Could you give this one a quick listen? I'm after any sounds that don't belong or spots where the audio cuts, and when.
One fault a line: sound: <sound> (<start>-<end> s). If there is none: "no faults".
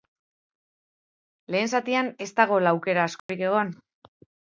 sound: dropout (3.2-3.3 s)